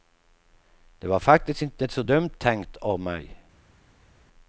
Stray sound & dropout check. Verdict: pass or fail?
pass